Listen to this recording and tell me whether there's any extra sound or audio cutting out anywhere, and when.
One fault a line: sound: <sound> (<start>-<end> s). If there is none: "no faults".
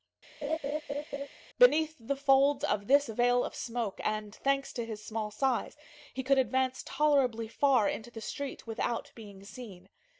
sound: laugh (0.4-1.3 s)